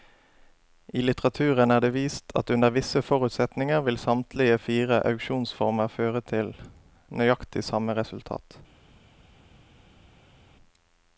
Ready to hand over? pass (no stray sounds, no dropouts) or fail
pass